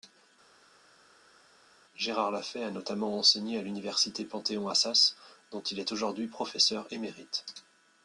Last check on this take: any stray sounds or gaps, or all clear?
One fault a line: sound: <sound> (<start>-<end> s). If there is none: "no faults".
no faults